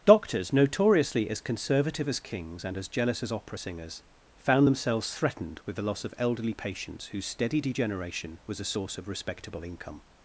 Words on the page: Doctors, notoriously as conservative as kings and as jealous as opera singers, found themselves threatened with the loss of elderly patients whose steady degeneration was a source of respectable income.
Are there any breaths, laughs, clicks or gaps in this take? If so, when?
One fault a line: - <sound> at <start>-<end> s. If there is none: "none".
none